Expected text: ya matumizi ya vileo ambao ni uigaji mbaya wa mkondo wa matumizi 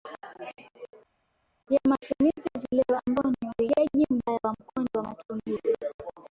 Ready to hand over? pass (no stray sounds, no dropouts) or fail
pass